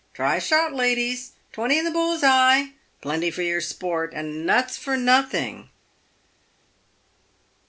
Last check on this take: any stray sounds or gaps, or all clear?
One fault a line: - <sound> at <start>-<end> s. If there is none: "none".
none